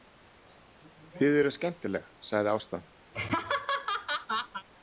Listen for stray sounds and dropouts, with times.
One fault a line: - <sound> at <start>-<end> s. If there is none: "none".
- laugh at 3.1-4.6 s